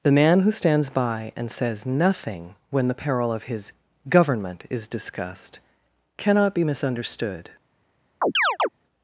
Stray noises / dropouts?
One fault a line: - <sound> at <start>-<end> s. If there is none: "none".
- chirp at 8.2-8.7 s